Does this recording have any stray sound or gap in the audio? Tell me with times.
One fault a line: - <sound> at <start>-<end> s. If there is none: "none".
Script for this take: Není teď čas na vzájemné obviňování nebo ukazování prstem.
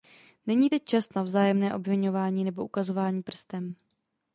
none